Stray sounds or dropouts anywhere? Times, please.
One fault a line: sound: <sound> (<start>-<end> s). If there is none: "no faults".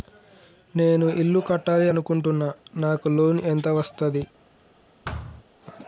sound: thud (5.0-5.4 s)